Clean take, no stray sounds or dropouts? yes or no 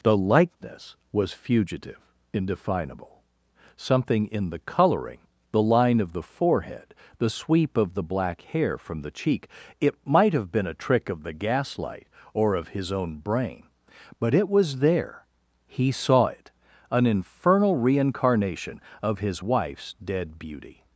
yes